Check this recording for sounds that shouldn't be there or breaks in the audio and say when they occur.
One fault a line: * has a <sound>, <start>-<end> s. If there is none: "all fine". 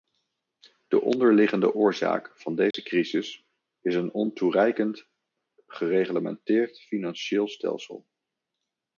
* has a dropout, 2.7-2.7 s